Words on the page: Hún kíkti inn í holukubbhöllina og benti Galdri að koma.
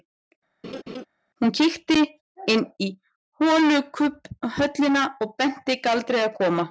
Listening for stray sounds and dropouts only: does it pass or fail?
fail